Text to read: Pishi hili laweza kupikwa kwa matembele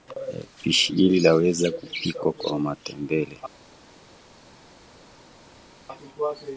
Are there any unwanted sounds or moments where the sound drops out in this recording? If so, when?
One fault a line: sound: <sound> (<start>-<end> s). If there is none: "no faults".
no faults